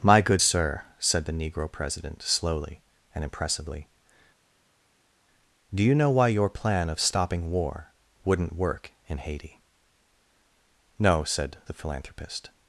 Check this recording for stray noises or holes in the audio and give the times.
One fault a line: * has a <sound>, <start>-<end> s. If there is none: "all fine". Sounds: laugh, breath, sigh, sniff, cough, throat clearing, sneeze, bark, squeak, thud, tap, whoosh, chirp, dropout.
all fine